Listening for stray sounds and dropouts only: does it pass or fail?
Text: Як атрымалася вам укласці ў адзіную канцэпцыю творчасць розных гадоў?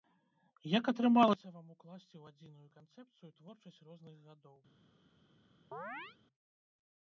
fail